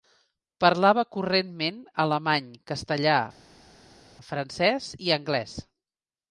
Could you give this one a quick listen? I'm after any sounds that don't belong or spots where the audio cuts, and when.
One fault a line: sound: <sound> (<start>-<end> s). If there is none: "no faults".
no faults